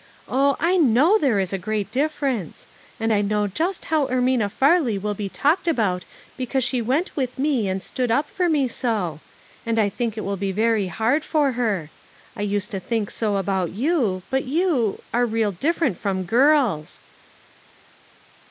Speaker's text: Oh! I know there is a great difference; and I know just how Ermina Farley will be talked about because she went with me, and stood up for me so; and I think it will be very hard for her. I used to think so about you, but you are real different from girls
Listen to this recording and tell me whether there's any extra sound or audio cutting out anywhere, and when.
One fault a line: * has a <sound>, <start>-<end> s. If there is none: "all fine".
all fine